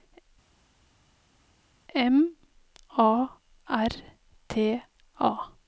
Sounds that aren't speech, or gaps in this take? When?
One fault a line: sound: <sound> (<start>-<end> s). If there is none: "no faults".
no faults